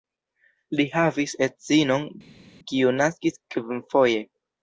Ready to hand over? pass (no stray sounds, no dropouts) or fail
pass